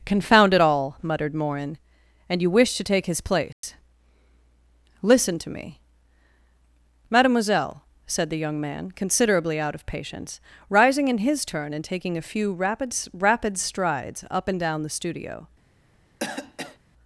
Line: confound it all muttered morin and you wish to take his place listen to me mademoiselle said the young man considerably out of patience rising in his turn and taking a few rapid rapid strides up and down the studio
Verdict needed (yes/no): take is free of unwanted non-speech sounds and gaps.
no